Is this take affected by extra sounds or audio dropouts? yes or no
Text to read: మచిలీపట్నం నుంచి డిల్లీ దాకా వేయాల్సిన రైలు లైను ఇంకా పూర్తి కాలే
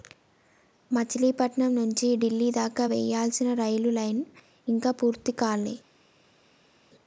no